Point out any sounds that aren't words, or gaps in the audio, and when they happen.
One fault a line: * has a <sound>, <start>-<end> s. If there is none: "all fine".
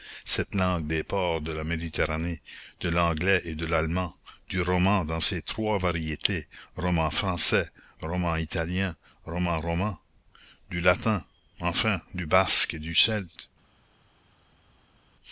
all fine